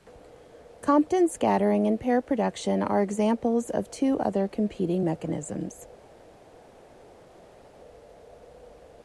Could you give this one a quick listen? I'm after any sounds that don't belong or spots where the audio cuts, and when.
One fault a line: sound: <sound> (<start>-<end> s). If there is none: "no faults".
no faults